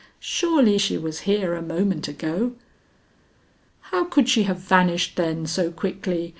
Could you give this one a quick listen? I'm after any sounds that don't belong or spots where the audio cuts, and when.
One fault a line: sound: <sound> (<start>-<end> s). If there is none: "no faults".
no faults